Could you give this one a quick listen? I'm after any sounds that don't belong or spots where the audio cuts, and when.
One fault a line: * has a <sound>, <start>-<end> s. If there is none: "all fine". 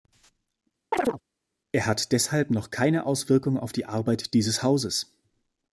* has a chirp, 0.9-1.2 s